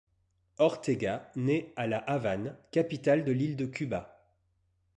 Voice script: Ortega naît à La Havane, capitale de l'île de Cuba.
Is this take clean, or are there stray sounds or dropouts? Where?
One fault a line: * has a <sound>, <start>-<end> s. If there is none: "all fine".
all fine